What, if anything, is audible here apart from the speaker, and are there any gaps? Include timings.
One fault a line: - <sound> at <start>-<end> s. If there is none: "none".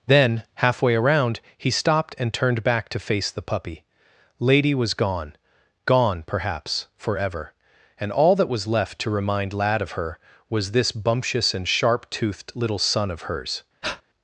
- breath at 13.8-14.0 s